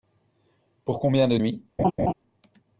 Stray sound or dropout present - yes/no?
yes